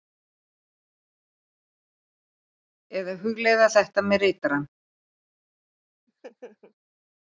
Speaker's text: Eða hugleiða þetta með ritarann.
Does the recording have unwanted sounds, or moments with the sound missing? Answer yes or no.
yes